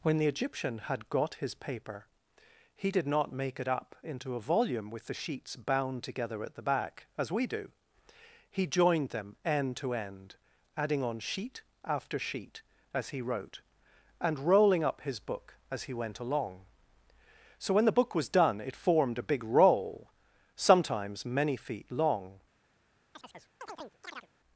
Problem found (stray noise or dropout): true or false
true